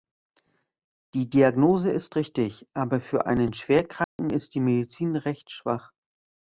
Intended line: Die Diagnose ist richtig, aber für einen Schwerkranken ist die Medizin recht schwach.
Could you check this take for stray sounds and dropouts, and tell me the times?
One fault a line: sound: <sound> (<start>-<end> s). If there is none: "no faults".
sound: dropout (4.0-4.2 s)